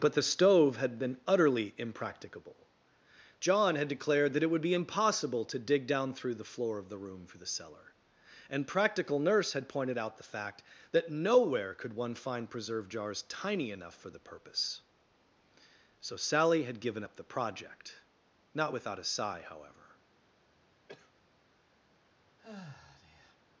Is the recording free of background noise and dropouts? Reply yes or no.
no